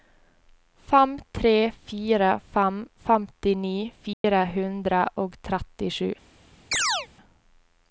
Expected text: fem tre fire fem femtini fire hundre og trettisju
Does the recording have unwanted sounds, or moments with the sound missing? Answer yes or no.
yes